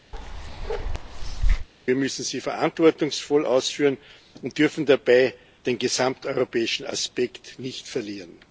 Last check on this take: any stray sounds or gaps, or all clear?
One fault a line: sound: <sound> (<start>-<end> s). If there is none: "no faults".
sound: bark (0.1-1.7 s)